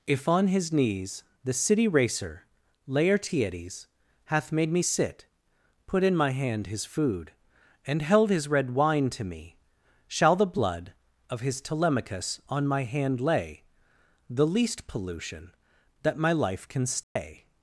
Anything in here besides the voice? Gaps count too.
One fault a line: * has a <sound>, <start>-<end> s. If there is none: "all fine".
* has a dropout, 17.0-17.2 s